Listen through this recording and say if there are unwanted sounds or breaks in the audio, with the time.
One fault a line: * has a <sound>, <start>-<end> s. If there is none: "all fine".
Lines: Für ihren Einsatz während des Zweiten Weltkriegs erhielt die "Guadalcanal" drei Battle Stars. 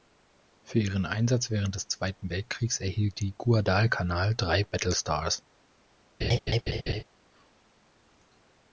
* has a laugh, 6.2-7.0 s